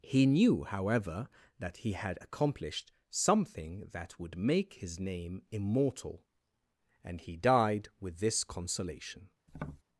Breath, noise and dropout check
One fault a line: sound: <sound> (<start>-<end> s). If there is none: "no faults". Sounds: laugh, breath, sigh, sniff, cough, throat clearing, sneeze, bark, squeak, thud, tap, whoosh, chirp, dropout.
sound: tap (9.5-9.8 s)